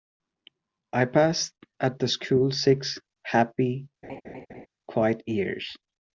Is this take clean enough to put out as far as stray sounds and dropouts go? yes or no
no